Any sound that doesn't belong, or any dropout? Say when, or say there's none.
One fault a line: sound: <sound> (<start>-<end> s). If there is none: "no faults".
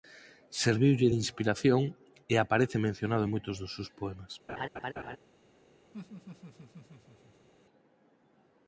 sound: laugh (4.5-5.2 s)
sound: laugh (5.9-7.5 s)